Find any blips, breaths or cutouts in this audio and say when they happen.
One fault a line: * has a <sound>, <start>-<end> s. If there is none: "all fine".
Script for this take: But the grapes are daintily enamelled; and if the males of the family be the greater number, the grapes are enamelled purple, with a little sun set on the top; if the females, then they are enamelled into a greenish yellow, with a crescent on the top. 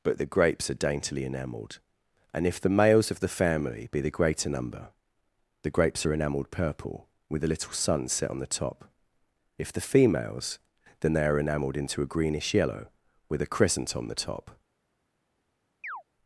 * has a chirp, 15.8-16.0 s